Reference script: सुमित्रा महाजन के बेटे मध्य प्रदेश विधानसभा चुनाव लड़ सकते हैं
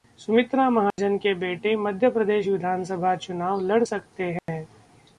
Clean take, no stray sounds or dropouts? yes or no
no